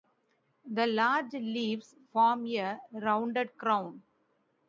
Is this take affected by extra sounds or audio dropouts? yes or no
no